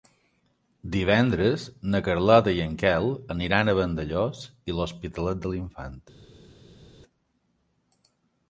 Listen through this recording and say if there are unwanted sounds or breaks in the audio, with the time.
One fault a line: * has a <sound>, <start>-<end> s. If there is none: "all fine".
all fine